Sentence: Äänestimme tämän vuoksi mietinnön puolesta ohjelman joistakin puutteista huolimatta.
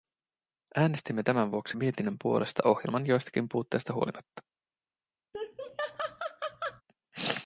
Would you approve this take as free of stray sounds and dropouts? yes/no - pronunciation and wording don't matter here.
no